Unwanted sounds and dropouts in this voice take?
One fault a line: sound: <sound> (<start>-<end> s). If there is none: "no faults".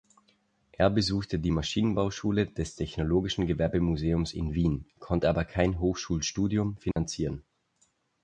sound: dropout (6.9-7.0 s)